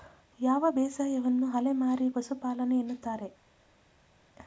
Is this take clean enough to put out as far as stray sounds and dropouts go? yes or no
yes